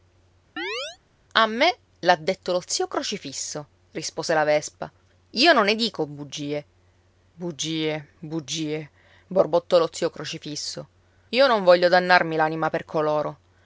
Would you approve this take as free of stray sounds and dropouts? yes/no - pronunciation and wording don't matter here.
no